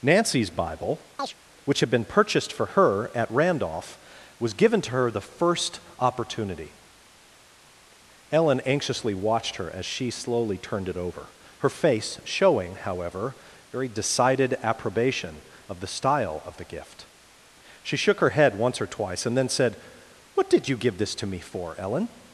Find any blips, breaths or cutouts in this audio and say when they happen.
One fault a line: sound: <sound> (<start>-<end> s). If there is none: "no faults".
sound: chirp (1.2-1.4 s)